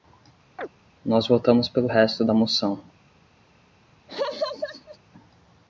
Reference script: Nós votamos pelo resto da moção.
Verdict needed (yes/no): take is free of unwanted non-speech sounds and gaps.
no